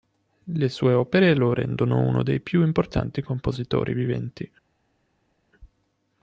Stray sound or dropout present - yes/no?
no